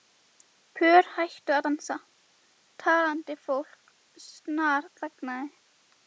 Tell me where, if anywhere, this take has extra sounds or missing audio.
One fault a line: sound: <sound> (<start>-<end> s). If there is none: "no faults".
no faults